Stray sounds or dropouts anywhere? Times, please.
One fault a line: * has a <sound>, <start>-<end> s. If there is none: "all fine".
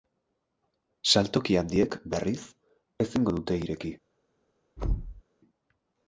* has a thud, 4.8-5.2 s